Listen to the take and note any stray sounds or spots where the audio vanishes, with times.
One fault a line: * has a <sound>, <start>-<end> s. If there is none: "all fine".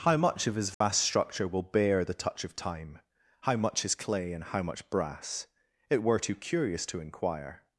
* has a dropout, 0.7-0.8 s